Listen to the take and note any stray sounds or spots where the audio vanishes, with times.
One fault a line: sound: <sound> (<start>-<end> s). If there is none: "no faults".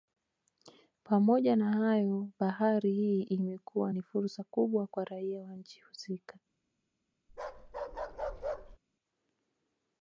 sound: bark (7.3-8.8 s)